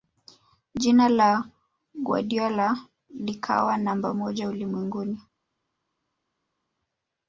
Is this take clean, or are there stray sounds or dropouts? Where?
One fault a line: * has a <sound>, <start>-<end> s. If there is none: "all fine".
all fine